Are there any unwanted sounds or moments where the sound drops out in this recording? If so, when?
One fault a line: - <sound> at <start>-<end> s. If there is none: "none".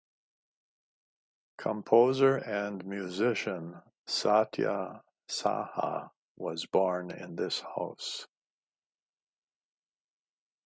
none